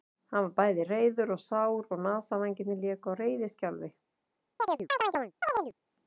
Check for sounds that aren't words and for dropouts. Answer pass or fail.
fail